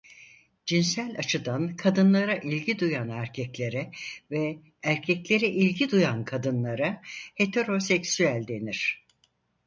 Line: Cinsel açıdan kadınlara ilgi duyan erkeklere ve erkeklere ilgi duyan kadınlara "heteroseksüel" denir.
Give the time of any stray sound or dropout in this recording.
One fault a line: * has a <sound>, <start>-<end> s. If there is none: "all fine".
all fine